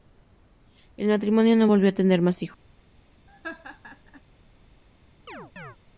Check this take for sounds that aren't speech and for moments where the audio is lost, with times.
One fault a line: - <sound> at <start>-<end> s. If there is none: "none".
- laugh at 3.3-4.2 s
- chirp at 5.3-5.8 s